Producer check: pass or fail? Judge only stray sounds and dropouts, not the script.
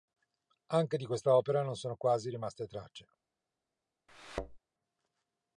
fail